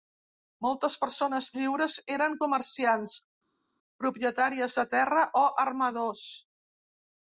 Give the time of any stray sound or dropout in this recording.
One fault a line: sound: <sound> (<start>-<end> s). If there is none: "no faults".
no faults